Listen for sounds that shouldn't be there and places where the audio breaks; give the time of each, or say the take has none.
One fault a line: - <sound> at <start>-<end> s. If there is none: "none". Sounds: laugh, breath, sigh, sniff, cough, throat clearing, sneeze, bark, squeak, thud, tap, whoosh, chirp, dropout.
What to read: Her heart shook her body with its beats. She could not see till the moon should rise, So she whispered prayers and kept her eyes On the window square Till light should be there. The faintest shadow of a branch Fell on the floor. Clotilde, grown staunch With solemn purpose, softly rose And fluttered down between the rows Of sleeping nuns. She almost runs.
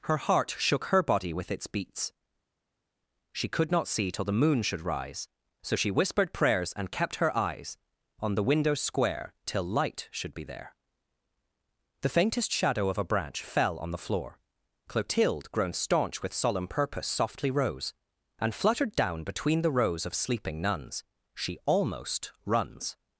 none